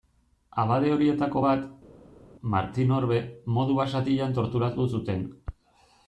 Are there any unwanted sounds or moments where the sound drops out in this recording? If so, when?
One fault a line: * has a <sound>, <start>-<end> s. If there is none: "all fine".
all fine